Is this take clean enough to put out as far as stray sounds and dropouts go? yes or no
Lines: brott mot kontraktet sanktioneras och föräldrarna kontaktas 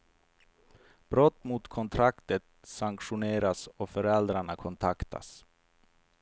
yes